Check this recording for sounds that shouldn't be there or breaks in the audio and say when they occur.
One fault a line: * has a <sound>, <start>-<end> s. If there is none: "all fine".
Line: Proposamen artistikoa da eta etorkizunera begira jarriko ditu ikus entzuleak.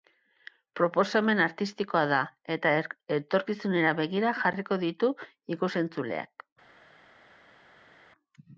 all fine